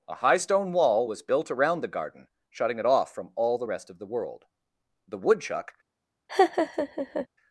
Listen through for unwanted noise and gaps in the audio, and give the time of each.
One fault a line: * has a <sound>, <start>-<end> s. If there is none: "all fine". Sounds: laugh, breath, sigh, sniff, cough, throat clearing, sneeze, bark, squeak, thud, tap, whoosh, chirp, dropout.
* has a laugh, 6.3-7.3 s